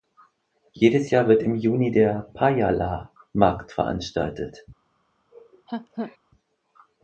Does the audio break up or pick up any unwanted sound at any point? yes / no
yes